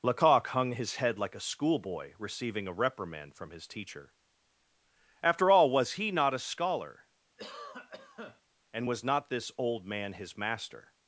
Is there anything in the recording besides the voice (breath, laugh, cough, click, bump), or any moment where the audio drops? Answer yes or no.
yes